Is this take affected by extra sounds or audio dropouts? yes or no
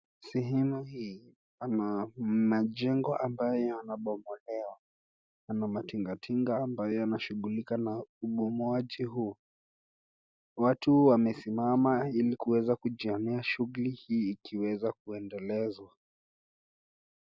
no